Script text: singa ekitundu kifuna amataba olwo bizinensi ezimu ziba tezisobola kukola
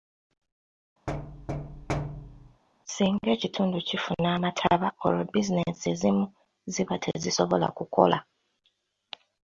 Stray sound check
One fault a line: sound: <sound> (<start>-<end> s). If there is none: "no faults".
sound: thud (1.1-2.6 s)